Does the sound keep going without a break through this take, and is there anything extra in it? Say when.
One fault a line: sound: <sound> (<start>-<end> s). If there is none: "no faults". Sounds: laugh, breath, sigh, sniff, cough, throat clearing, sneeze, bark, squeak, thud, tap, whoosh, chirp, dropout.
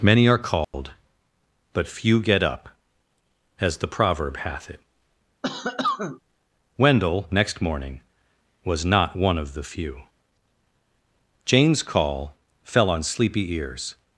sound: dropout (0.6-0.7 s)
sound: cough (5.4-6.2 s)